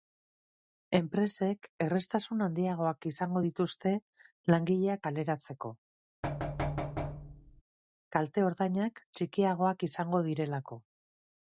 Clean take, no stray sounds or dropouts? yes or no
no